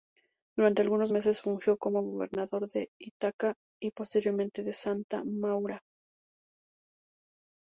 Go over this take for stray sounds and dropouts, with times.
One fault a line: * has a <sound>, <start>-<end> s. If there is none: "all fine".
all fine